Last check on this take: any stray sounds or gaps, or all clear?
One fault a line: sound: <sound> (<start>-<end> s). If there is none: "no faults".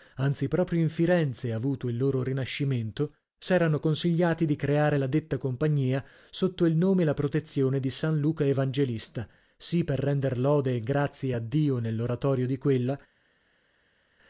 no faults